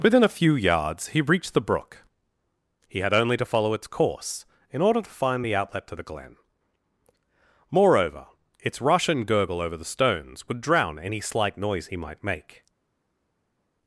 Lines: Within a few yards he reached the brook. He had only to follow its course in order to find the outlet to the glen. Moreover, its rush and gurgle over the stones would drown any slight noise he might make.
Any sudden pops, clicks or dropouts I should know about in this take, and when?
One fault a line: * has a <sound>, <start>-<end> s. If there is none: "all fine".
all fine